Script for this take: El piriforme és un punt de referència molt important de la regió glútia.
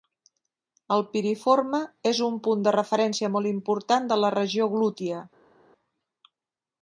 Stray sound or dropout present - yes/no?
no